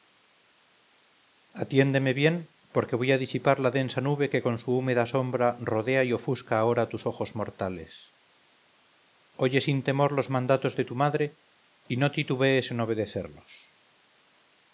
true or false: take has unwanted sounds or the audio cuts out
false